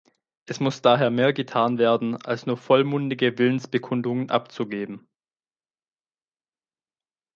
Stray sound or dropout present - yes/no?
no